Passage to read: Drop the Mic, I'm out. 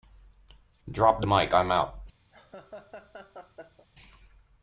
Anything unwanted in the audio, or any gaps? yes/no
yes